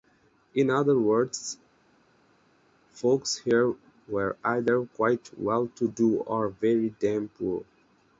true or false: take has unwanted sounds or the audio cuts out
false